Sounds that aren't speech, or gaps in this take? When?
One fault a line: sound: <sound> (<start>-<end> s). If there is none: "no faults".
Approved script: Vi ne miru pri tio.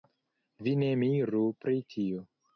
no faults